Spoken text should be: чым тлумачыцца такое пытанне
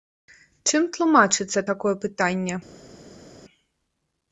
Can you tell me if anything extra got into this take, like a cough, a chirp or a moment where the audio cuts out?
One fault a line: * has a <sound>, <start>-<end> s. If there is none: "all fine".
all fine